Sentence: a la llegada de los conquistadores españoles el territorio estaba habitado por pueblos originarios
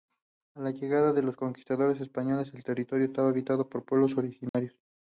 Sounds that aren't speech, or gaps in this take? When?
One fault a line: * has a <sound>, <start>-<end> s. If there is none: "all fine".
* has a dropout, 4.5-4.5 s